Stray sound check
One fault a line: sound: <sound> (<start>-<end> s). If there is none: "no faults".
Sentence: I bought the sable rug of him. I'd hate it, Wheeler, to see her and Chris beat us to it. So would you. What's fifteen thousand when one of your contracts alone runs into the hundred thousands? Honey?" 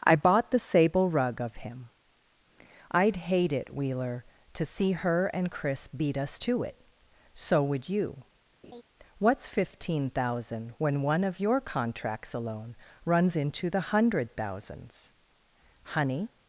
sound: laugh (8.6-8.8 s)